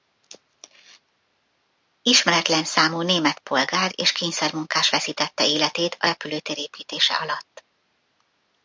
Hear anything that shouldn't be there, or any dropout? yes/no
no